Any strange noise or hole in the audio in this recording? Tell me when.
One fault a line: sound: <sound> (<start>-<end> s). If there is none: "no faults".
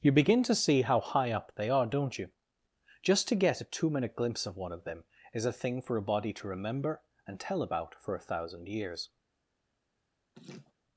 sound: laugh (10.3-10.7 s)